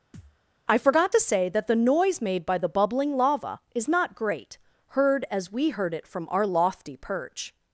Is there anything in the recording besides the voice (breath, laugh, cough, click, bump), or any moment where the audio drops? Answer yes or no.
yes